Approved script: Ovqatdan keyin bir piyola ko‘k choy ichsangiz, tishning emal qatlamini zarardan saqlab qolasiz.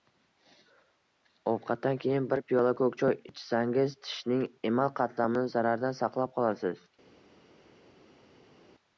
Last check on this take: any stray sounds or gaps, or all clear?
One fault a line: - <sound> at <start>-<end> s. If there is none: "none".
none